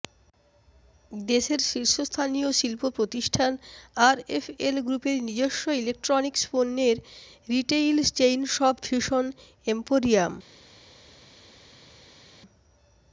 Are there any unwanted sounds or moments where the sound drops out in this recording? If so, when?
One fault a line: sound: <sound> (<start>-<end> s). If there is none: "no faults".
no faults